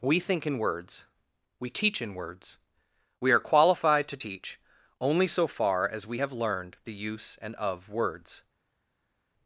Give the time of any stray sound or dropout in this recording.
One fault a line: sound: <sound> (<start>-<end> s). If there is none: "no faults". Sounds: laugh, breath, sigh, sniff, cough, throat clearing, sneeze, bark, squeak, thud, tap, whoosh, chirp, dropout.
no faults